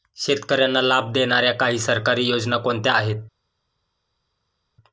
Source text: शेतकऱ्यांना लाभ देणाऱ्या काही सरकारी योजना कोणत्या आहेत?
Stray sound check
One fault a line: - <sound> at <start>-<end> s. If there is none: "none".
none